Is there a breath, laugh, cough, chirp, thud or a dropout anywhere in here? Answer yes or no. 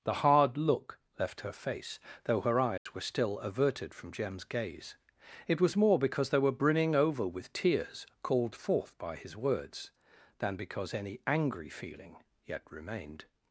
yes